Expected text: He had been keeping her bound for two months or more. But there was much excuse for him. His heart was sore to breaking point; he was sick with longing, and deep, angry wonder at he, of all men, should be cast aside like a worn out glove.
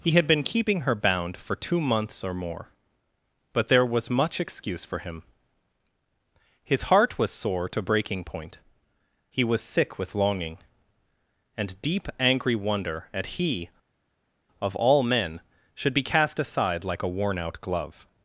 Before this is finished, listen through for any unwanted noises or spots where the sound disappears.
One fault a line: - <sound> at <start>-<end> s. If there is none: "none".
none